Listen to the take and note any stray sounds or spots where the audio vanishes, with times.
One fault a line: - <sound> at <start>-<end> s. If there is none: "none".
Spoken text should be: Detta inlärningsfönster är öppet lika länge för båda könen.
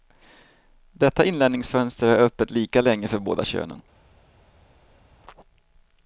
none